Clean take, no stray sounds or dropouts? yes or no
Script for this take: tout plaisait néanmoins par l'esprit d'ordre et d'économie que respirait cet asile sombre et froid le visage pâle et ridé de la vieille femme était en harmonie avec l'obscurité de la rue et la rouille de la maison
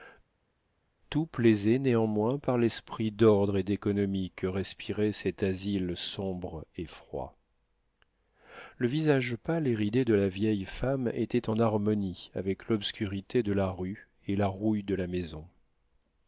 yes